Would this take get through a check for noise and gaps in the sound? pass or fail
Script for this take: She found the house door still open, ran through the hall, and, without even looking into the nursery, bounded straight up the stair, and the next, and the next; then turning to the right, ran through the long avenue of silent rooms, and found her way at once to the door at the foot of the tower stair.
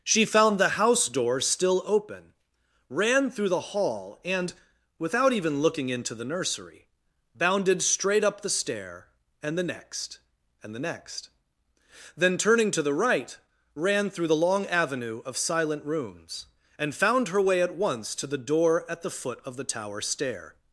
pass